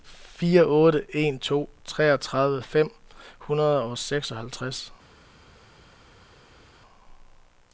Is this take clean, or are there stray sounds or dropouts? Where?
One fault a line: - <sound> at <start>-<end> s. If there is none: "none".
none